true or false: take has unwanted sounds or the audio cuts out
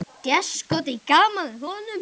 false